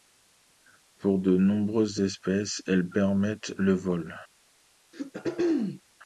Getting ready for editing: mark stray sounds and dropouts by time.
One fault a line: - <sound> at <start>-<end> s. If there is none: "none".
- throat clearing at 4.9-5.8 s